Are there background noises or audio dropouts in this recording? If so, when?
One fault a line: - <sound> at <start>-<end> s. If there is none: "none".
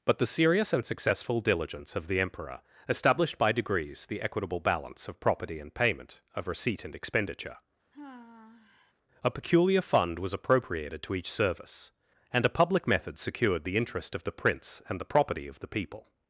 - sigh at 7.9-8.9 s